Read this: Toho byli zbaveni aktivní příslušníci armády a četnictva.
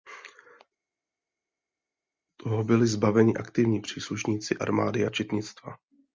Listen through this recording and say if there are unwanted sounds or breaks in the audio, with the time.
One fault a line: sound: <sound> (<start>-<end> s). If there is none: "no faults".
no faults